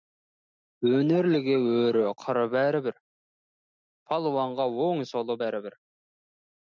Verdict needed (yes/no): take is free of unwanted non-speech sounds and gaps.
yes